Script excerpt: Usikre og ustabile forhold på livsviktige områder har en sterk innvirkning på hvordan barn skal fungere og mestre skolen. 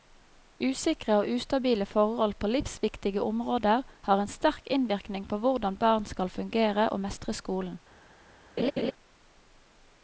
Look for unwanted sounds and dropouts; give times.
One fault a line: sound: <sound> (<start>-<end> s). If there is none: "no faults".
sound: laugh (8.6-8.9 s)